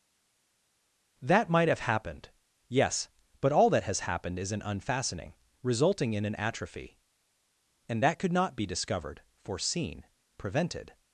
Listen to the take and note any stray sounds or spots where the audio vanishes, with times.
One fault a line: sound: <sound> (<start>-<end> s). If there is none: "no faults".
no faults